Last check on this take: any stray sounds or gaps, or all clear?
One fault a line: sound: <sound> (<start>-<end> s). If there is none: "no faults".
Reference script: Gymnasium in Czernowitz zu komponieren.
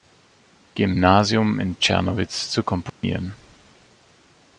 sound: dropout (2.9-3.0 s)